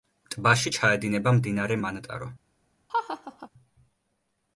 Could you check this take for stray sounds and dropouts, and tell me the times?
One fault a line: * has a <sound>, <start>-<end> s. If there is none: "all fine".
* has a laugh, 2.9-3.5 s